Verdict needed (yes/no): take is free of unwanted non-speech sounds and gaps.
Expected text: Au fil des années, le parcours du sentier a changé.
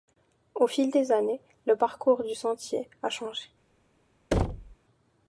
no